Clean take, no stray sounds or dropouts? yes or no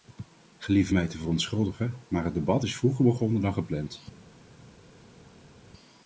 yes